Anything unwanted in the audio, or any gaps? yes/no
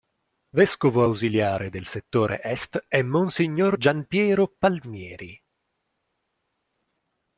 no